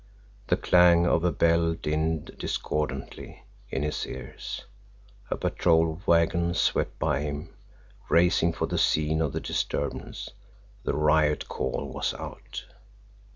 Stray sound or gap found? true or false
false